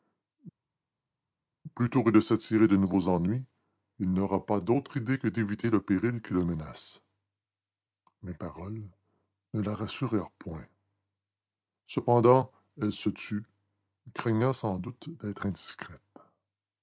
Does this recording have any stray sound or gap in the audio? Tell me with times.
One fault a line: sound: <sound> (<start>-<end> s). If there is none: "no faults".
no faults